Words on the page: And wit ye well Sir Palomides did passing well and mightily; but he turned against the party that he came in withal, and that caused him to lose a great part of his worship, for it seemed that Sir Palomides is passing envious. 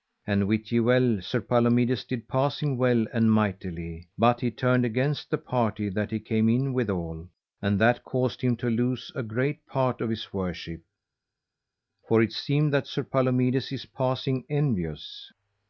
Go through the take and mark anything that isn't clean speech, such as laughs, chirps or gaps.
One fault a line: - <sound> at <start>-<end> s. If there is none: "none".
none